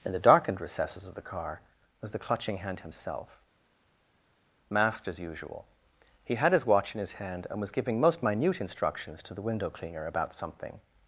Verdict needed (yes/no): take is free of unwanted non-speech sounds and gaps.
yes